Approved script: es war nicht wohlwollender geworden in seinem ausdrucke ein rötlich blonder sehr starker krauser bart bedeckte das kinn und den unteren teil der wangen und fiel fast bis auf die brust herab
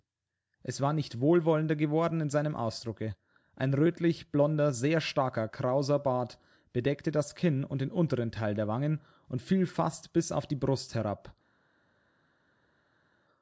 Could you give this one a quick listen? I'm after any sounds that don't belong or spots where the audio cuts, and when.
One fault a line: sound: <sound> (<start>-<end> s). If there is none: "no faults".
no faults